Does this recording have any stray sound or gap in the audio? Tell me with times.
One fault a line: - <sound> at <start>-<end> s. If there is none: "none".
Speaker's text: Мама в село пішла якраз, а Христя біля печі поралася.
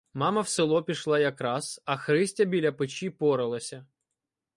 none